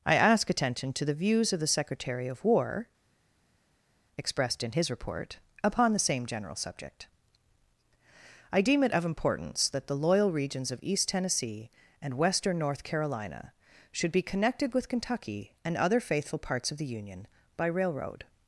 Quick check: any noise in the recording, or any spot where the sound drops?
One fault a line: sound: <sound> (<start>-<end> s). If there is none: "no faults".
no faults